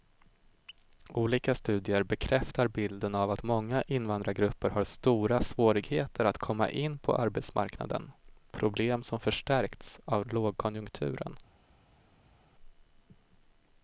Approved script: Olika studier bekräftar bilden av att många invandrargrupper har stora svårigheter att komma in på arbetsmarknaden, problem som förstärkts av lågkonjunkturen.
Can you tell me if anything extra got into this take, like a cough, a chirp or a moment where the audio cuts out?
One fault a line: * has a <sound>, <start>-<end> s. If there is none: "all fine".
all fine